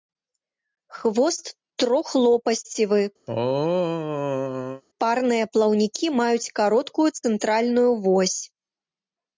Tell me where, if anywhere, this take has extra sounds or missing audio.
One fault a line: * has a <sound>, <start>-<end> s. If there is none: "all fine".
* has a throat clearing, 3.3-4.8 s